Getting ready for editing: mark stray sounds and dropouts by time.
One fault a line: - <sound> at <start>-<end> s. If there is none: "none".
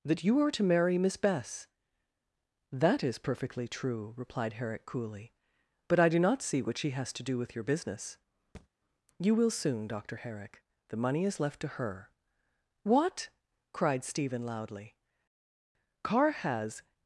- thud at 8.5-8.7 s